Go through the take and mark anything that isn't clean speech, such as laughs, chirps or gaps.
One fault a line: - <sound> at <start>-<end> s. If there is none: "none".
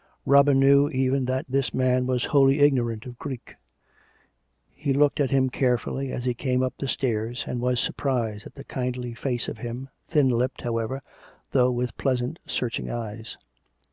none